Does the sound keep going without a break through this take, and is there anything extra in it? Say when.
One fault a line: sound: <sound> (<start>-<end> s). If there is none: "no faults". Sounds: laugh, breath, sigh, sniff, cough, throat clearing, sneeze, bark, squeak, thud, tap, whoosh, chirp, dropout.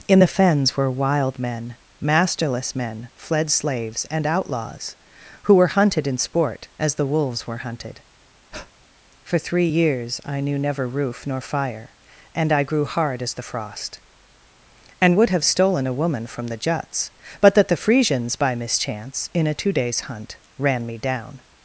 sound: breath (8.5-8.7 s)